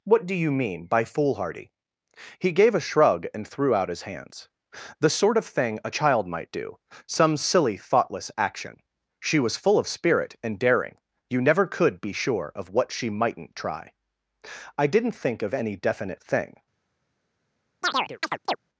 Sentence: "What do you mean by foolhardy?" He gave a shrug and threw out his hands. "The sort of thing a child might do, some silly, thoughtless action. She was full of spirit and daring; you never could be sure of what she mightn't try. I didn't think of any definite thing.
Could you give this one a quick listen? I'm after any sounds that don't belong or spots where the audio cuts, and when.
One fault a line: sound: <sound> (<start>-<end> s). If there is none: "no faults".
sound: chirp (17.8-18.6 s)